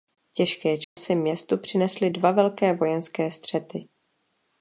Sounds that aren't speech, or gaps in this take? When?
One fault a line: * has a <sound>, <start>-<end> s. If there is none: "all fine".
* has a dropout, 0.8-1.0 s